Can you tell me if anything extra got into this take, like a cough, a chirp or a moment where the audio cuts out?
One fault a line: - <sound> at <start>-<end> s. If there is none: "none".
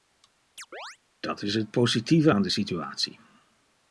- chirp at 0.6-1.0 s